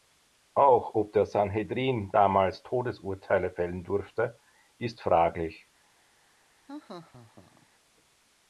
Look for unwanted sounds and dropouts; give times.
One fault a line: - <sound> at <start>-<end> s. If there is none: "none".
- laugh at 6.7-7.7 s